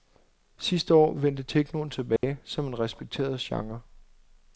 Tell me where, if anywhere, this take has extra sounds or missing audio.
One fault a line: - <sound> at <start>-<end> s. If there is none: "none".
- dropout at 2.2-2.2 s